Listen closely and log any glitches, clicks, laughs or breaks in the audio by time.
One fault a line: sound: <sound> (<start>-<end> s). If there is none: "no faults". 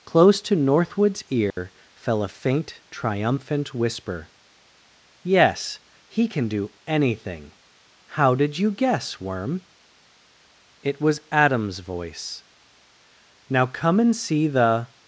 sound: dropout (1.5-1.6 s)